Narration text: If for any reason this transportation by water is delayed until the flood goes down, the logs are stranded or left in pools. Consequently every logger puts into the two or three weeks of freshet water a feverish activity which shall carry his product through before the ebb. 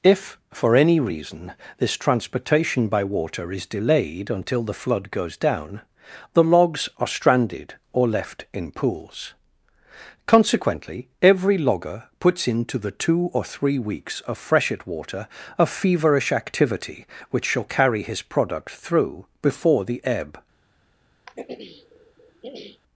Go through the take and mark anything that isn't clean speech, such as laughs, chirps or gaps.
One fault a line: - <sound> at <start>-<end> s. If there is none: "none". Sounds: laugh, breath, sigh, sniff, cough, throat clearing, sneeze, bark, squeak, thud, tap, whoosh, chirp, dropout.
- throat clearing at 21.3-22.8 s